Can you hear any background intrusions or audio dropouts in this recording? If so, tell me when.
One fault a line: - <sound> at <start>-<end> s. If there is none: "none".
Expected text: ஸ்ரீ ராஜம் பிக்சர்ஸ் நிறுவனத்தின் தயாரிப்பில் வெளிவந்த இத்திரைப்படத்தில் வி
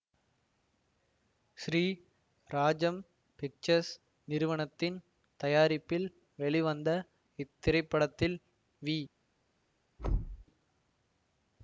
- thud at 10.0-10.4 s